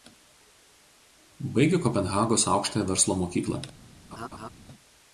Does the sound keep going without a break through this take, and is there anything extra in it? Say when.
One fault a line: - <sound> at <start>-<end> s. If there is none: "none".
- laugh at 4.1-4.5 s